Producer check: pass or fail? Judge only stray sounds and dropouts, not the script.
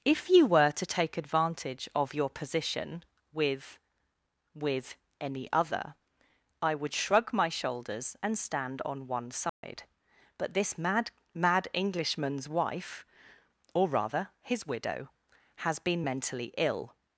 fail